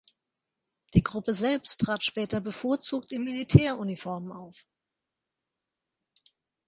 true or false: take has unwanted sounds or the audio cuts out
false